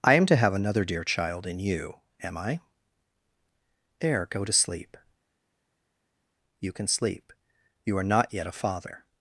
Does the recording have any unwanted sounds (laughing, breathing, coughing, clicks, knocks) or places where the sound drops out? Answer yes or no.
no